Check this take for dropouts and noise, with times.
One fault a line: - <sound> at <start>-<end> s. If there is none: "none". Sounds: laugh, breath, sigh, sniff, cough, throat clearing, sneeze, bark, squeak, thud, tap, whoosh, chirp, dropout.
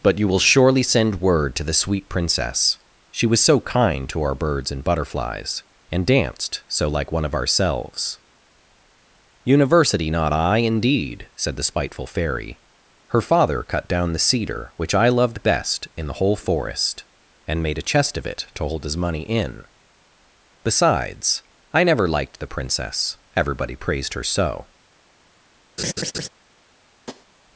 - laugh at 25.8-26.3 s
- tap at 27.1-27.3 s